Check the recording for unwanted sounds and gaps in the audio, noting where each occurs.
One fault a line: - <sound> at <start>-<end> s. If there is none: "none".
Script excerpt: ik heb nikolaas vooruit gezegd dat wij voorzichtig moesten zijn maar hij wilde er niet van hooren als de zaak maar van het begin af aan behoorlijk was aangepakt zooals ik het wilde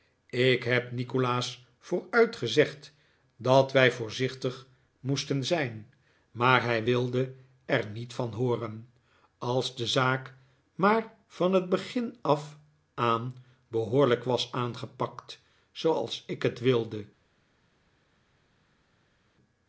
none